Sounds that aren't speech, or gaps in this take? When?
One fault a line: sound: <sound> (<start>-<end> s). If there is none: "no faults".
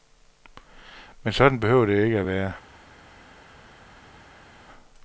no faults